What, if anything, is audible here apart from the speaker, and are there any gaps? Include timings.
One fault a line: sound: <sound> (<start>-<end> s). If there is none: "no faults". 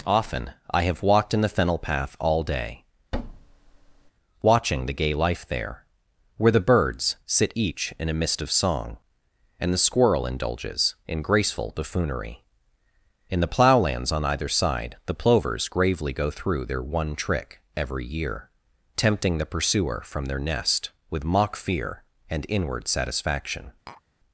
sound: thud (3.1-4.1 s)
sound: tap (23.9-24.0 s)